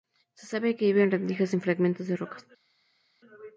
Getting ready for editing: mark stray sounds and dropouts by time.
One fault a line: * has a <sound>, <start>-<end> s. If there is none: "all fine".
all fine